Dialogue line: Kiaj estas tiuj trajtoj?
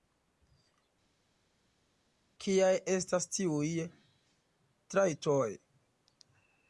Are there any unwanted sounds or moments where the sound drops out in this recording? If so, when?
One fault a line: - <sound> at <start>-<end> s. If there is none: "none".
none